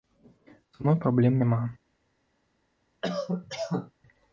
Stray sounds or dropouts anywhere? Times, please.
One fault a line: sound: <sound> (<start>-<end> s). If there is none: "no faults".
sound: cough (3.0-3.9 s)